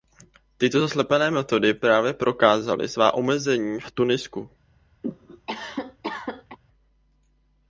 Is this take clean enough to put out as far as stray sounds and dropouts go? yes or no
no